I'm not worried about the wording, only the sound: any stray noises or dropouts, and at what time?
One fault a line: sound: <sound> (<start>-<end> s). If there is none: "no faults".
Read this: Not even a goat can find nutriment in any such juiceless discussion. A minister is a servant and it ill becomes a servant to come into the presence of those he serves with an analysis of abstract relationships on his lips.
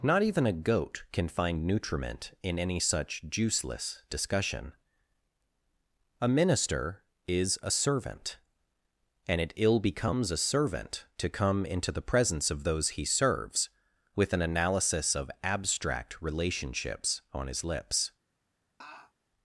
sound: laugh (18.8-19.1 s)